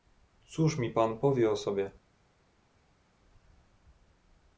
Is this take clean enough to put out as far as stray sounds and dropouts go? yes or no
yes